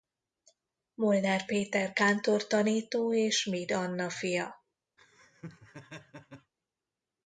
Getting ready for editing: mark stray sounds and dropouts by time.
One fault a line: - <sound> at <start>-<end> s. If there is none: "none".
- laugh at 5.0-6.5 s